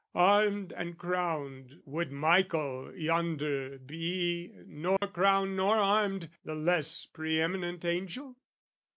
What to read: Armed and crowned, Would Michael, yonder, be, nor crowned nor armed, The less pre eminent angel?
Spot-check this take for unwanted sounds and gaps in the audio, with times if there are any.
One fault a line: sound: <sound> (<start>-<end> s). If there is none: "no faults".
sound: dropout (5.0-5.0 s)